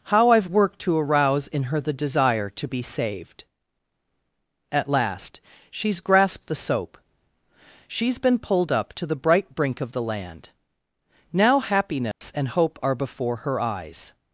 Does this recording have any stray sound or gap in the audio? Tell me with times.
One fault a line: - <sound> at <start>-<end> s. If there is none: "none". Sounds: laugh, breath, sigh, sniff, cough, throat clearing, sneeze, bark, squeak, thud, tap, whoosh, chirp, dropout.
- dropout at 12.1-12.2 s